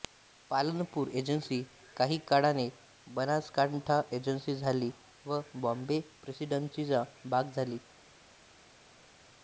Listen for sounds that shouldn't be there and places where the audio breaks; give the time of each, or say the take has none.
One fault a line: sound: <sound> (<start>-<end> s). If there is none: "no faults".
no faults